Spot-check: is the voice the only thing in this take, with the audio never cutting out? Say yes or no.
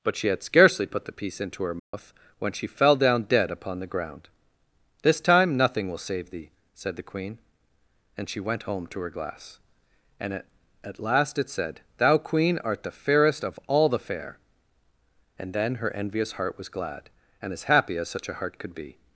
no